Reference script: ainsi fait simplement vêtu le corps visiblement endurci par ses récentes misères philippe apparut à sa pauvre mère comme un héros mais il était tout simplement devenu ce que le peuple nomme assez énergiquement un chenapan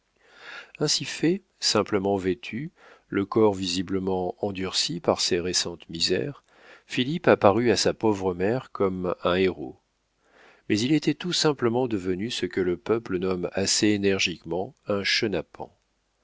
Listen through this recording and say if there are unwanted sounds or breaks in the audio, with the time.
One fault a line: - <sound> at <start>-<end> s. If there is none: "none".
none